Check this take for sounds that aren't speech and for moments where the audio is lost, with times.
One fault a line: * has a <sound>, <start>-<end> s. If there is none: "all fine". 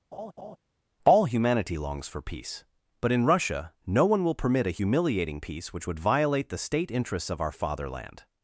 * has a laugh, 0.1-0.6 s